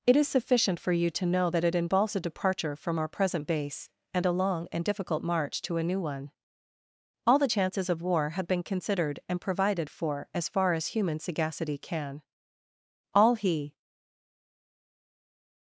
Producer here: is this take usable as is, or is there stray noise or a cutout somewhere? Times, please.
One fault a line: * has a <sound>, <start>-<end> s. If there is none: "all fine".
all fine